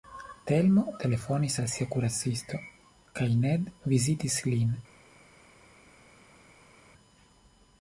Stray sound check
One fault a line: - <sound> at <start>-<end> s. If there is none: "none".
none